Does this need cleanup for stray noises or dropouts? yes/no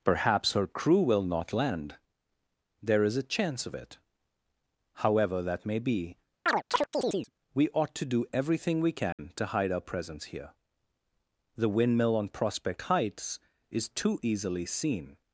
yes